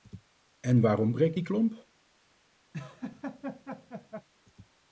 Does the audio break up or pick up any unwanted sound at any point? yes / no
yes